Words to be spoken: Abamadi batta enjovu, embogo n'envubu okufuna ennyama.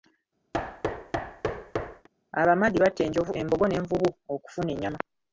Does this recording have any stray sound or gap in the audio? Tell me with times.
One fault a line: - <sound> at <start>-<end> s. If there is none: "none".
- thud at 0.5-2.1 s